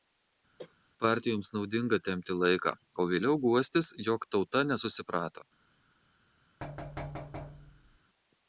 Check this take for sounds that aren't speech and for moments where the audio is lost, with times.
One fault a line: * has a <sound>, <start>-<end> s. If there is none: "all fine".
* has a cough, 0.6-0.7 s
* has a thud, 6.6-8.0 s